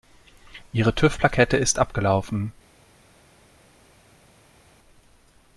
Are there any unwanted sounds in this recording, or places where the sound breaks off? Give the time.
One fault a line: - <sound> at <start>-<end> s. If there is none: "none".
none